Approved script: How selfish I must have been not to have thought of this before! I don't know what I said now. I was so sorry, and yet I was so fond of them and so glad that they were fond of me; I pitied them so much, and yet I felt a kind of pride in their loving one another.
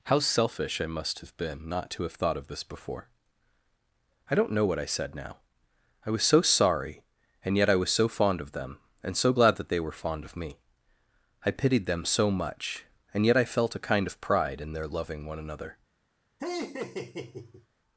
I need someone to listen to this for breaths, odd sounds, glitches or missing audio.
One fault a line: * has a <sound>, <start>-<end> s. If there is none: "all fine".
* has a laugh, 16.4-17.7 s